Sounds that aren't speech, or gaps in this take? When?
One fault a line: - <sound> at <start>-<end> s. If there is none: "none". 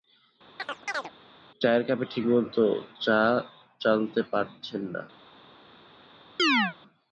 - chirp at 0.6-1.1 s
- chirp at 6.4-6.7 s